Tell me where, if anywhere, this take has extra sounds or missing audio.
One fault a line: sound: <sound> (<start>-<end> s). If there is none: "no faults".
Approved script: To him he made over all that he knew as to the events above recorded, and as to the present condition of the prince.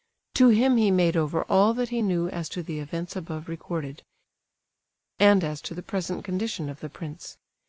no faults